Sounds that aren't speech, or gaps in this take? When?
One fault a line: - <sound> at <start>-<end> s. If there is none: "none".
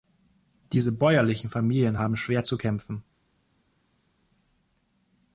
none